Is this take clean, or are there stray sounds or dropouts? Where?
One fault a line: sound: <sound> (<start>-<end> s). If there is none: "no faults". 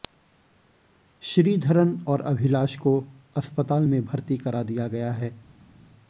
no faults